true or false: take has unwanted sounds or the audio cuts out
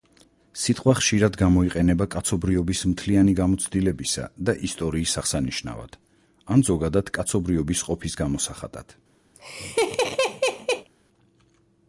true